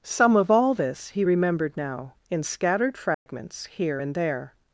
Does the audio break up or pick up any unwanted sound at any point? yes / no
yes